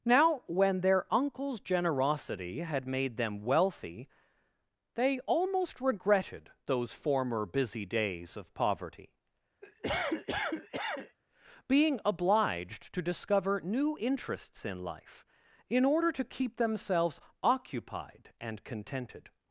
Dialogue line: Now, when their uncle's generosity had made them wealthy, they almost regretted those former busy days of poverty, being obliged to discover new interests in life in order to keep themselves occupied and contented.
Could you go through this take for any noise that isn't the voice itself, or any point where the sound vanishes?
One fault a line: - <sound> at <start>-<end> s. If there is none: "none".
- cough at 9.6-11.2 s